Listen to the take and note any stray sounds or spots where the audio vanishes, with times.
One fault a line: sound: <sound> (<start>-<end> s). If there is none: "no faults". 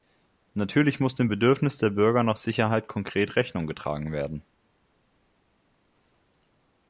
no faults